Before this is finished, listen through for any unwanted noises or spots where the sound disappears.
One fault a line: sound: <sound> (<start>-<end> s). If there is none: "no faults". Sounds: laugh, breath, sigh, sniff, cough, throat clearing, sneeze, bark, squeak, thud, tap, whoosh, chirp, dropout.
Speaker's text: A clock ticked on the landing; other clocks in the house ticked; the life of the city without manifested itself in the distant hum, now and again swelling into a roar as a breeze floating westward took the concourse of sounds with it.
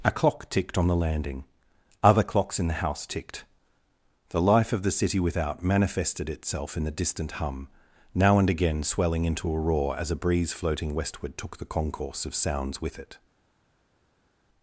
no faults